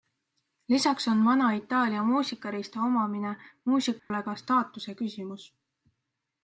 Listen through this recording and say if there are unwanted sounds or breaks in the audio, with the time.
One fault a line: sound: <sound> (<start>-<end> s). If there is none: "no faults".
sound: dropout (4.0-4.1 s)